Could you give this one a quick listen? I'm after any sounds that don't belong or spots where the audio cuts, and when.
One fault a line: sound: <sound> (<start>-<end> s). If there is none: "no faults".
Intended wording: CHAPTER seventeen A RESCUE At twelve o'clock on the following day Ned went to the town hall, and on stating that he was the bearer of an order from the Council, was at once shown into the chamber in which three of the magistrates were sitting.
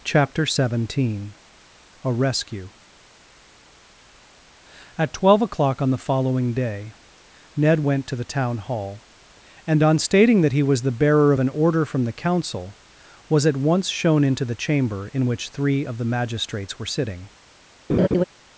sound: laugh (17.9-18.2 s)